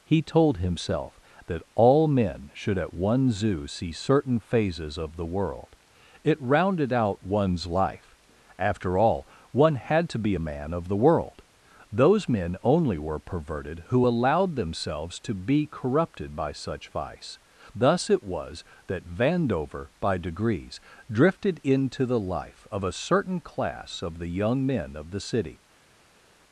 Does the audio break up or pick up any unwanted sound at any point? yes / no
no